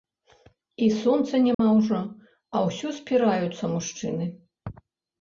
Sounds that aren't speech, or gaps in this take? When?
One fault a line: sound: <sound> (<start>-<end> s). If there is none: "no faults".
sound: dropout (1.5-1.6 s)